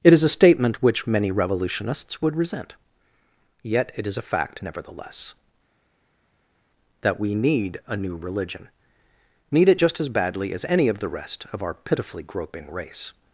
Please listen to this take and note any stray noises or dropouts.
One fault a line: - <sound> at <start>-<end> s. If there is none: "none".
none